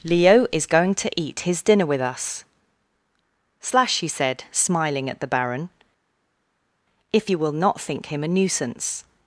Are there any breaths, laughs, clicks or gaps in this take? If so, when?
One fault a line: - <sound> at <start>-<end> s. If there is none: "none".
none